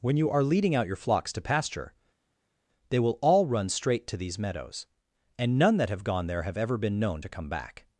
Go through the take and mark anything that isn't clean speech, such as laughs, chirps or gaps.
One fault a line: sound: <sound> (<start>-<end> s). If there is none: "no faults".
no faults